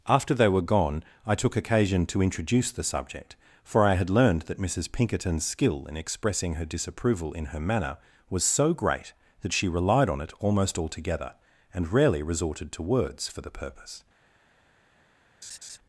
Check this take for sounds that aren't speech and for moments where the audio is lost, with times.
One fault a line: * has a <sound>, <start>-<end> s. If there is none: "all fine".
* has a laugh, 15.4-15.8 s